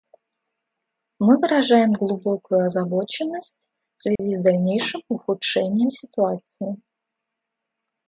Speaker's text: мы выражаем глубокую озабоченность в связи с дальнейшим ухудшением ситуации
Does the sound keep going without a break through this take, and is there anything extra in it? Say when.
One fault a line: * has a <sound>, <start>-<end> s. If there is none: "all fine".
* has a dropout, 4.2-4.2 s